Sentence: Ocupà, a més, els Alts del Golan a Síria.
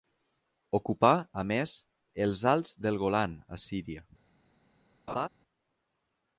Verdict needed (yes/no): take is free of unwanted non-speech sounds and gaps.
no